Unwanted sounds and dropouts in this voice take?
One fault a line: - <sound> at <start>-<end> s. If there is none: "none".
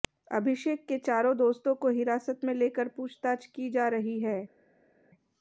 none